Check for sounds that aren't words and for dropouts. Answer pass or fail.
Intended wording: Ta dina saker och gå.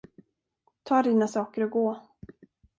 pass